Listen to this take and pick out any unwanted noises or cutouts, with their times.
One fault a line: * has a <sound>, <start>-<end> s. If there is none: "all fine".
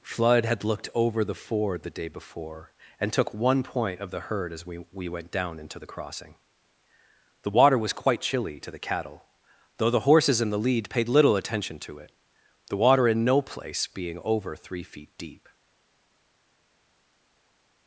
all fine